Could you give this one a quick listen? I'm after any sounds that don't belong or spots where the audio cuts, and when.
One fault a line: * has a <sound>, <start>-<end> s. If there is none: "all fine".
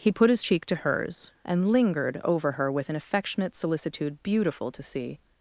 all fine